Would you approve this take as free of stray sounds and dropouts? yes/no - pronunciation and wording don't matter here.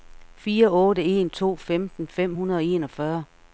yes